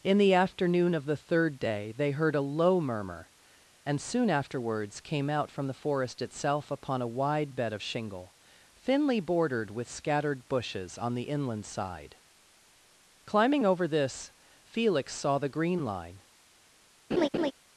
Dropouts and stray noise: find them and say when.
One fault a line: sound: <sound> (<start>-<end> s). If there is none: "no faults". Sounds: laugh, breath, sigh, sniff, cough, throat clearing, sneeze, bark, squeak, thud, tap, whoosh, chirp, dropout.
sound: laugh (17.1-17.5 s)